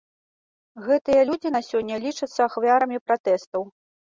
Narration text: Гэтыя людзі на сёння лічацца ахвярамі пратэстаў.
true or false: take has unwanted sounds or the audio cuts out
false